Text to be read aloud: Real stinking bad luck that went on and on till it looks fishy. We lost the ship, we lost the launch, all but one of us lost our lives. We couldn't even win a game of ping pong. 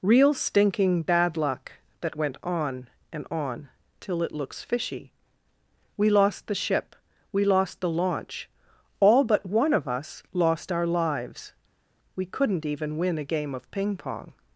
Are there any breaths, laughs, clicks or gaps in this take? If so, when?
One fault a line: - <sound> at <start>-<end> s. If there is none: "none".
none